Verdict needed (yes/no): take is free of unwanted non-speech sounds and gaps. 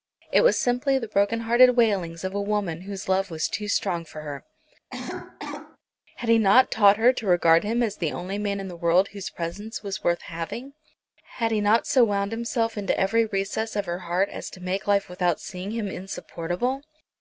no